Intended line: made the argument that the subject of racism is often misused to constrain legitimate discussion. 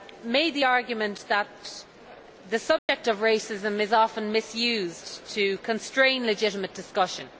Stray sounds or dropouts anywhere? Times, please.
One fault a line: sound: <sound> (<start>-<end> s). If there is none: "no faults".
sound: dropout (2.8-2.9 s)